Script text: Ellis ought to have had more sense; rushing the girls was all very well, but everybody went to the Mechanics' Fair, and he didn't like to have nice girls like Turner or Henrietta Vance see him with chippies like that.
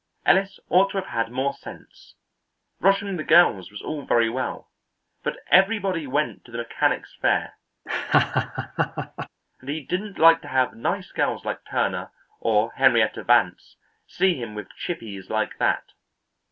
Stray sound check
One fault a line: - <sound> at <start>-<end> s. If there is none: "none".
- laugh at 7.9-9.3 s